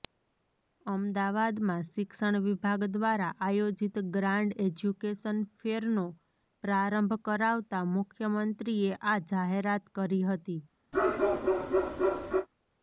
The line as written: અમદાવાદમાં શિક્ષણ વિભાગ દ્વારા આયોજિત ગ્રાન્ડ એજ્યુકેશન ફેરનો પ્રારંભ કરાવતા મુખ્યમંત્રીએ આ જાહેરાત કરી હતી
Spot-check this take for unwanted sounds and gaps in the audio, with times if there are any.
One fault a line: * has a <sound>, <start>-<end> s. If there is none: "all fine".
* has a bark, 10.9-12.5 s